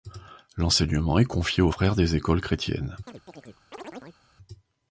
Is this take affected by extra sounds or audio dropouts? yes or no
yes